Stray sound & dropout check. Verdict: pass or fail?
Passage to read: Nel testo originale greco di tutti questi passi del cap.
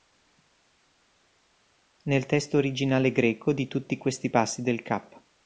pass